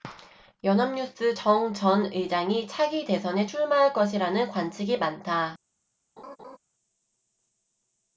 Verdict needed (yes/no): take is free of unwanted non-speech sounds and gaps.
no